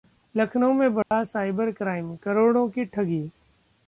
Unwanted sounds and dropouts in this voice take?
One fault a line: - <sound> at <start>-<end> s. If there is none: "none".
- dropout at 1.0-1.1 s